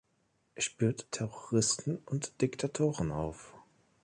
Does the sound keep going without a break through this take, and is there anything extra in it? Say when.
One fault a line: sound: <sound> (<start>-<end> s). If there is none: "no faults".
no faults